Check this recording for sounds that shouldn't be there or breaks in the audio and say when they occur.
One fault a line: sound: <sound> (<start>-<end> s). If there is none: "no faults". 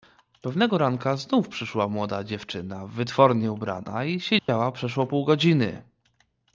sound: dropout (4.4-4.5 s)